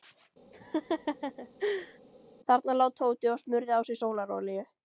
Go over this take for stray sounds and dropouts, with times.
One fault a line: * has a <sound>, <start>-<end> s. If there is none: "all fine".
* has a laugh, 0.5-2.0 s